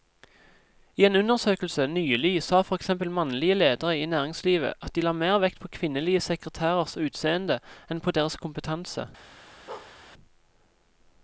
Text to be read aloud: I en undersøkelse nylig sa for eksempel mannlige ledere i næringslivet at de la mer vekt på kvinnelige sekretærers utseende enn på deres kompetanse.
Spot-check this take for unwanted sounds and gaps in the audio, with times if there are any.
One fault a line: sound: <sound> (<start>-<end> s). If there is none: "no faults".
sound: bark (9.7-10.0 s)